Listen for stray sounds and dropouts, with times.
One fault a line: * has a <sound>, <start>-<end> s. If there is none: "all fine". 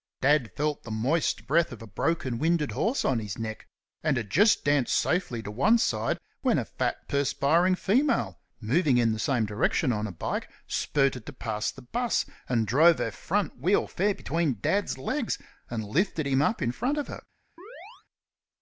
* has a chirp, 17.6-18.0 s